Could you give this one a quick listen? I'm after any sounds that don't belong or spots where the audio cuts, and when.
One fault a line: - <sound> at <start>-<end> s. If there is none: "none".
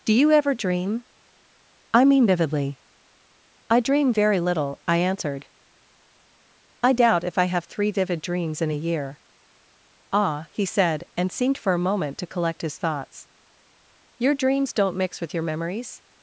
none